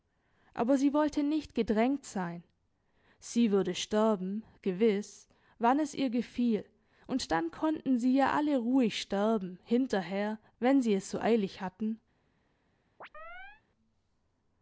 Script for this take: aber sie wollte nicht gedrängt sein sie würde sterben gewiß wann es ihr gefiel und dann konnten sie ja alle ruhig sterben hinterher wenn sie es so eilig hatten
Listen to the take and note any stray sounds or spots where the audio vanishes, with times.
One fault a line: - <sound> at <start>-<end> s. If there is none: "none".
- chirp at 13.0-13.6 s